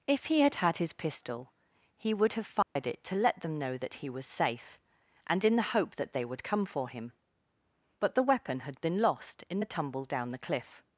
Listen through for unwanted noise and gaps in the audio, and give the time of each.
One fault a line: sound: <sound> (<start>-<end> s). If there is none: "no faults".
sound: dropout (2.6-2.8 s)